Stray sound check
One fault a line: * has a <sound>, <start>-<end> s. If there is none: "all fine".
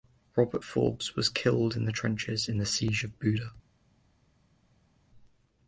all fine